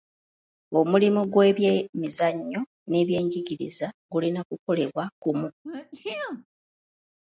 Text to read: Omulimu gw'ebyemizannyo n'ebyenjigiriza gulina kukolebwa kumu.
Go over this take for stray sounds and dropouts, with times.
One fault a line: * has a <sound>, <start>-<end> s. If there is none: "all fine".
* has a sneeze, 5.6-6.5 s